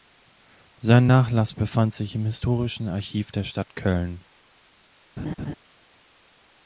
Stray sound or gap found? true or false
true